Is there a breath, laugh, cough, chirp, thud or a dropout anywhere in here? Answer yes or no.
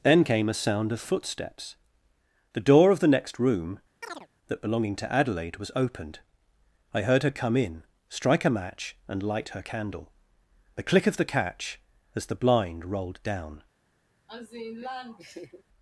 yes